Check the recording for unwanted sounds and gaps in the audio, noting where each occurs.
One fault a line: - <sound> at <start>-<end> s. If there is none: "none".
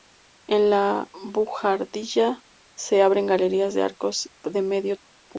none